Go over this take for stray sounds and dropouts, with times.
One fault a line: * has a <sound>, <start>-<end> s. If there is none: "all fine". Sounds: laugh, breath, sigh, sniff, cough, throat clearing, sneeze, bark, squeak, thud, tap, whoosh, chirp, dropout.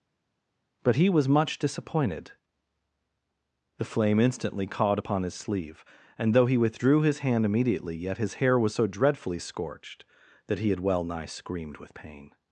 all fine